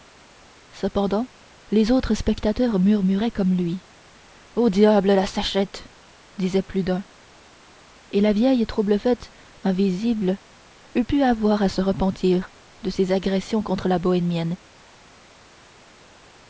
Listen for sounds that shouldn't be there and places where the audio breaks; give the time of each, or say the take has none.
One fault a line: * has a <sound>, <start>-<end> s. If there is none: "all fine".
all fine